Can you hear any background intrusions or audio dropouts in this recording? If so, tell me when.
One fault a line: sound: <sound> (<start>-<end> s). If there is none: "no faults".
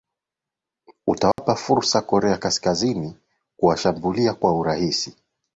sound: dropout (1.3-1.4 s)